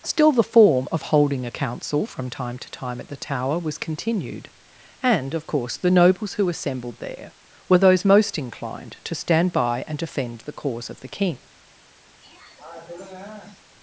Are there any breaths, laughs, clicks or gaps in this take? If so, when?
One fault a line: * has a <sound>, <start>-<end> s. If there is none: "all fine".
* has a throat clearing, 12.2-13.6 s